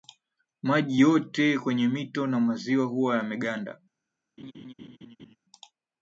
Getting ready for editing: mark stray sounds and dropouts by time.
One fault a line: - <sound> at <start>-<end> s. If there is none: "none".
- laugh at 4.4-5.4 s